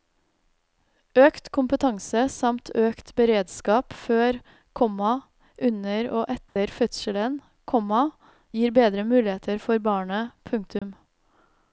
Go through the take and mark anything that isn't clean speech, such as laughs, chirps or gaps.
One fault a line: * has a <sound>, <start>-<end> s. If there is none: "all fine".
* has a dropout, 6.5-6.6 s
* has a dropout, 10.8-10.8 s